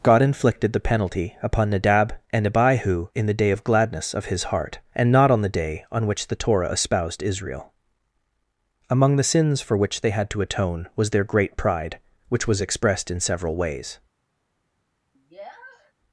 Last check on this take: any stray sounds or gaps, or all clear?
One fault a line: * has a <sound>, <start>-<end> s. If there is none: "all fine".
* has a sniff, 15.1-15.9 s